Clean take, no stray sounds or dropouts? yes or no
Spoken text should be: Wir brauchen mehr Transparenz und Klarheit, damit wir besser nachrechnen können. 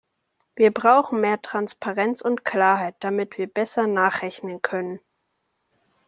yes